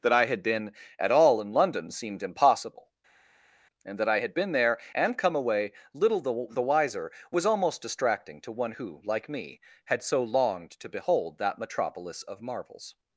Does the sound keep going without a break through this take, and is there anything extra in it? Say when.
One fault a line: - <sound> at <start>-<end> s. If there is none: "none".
none